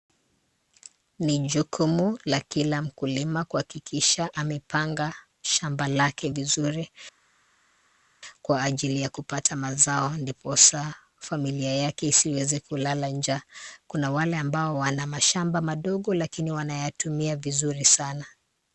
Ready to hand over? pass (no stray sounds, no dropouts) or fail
pass